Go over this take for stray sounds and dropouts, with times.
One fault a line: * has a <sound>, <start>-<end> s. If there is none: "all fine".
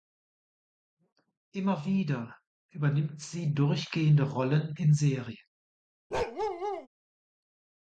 * has a bark, 6.1-6.9 s